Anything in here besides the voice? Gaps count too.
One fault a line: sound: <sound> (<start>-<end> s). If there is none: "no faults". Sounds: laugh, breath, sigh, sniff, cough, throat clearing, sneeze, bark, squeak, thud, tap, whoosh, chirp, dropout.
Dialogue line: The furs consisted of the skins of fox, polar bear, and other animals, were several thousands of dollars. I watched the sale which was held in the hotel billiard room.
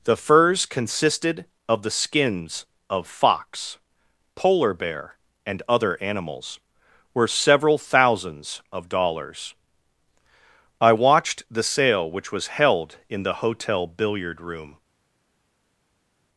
no faults